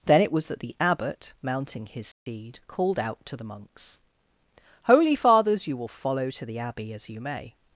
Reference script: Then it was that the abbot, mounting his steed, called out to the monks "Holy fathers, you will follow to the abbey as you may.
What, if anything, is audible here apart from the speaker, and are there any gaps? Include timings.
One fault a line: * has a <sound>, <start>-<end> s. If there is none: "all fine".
* has a dropout, 2.1-2.3 s